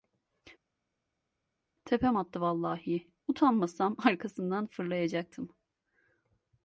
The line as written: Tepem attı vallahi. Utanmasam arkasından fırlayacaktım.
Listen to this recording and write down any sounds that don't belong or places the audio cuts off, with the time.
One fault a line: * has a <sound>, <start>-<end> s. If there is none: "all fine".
all fine